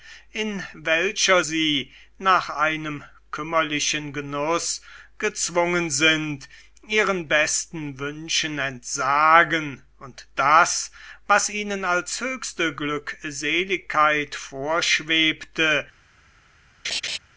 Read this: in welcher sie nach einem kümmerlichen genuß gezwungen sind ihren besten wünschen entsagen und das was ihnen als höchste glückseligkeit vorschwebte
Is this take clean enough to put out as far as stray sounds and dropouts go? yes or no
no